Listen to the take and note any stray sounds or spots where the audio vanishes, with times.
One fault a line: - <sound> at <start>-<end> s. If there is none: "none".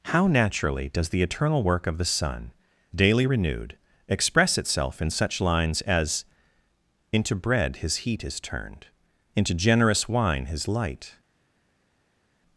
none